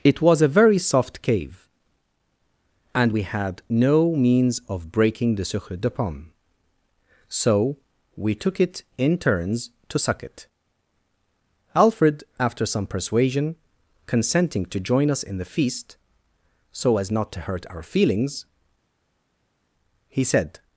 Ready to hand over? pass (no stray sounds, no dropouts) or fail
pass